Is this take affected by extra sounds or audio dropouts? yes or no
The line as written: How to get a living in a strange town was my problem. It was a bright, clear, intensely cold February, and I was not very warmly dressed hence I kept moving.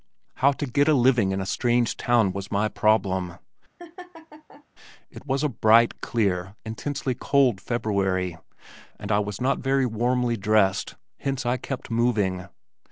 yes